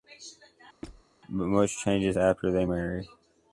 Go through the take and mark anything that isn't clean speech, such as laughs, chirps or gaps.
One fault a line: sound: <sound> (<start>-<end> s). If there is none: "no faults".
sound: squeak (0.8-1.0 s)